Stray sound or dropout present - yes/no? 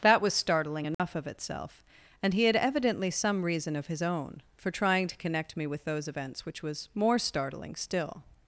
yes